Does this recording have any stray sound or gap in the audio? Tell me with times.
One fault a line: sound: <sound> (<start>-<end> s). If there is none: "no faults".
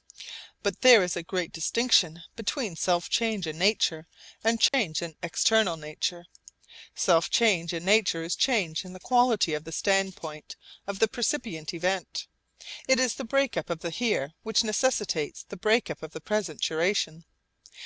sound: dropout (4.7-4.7 s)